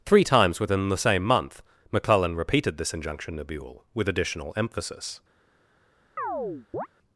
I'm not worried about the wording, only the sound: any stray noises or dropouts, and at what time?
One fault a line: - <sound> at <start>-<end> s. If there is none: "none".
- chirp at 6.2-6.9 s